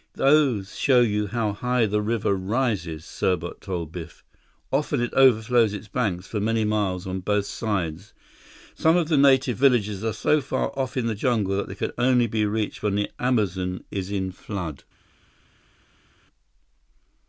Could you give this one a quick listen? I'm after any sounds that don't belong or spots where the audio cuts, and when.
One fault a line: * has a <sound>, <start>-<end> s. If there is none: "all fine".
all fine